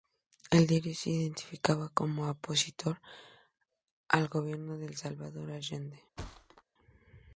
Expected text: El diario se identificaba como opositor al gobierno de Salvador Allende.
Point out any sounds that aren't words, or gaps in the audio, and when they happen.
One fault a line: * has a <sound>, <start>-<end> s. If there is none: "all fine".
* has a thud, 6.2-6.6 s